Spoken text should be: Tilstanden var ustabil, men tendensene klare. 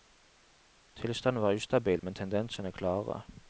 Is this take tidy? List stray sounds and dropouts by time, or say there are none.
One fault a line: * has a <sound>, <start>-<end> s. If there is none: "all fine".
all fine